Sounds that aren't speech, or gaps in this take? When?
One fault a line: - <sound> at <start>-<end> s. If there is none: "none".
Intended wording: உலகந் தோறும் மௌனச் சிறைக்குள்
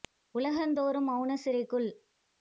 none